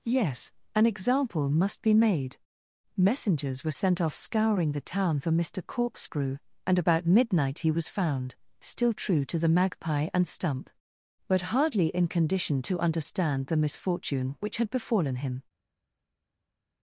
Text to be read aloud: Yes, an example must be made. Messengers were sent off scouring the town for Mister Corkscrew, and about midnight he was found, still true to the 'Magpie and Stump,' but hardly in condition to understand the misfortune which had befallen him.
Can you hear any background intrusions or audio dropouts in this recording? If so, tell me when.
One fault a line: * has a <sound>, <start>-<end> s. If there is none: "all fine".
all fine